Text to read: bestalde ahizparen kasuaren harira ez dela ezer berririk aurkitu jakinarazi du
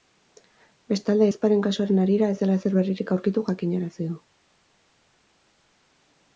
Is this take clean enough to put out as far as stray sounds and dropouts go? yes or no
yes